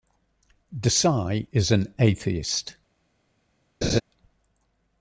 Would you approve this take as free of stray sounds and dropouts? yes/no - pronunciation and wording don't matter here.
no